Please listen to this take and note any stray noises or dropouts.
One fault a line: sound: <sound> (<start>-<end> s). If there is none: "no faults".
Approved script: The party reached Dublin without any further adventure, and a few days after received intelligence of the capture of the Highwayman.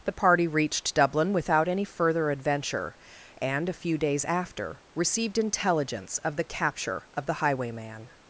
no faults